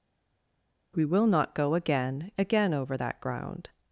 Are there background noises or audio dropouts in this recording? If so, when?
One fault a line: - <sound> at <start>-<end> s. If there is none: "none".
none